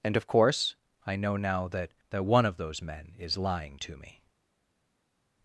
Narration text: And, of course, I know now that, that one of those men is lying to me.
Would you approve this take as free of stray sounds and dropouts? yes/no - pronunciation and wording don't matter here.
yes